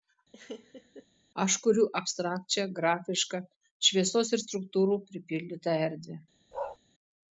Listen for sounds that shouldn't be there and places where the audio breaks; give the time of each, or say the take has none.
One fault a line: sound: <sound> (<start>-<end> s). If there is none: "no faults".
sound: laugh (0.3-1.1 s)
sound: bark (6.5-6.8 s)